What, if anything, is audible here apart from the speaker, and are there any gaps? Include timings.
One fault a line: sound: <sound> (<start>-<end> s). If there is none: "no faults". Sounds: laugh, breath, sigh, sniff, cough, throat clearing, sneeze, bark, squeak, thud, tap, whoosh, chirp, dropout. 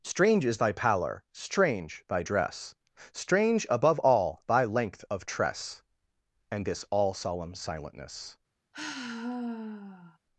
sound: sigh (8.7-10.2 s)